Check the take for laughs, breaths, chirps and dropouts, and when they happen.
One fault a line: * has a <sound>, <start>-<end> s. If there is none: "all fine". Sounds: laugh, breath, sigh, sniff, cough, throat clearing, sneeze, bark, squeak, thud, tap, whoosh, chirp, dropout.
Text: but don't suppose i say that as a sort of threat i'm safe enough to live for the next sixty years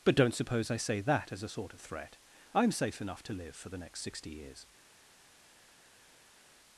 all fine